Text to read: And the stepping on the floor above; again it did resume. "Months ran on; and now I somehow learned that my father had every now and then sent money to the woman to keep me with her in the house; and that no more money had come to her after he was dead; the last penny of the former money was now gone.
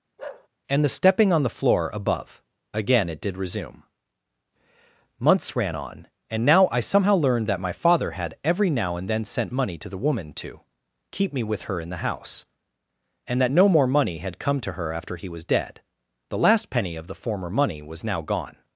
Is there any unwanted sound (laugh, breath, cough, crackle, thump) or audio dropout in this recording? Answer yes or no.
yes